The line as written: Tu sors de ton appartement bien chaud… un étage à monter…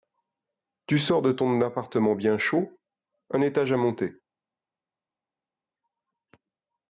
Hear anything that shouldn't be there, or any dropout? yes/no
no